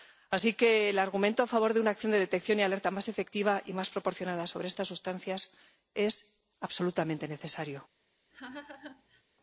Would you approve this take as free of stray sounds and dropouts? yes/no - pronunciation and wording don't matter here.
no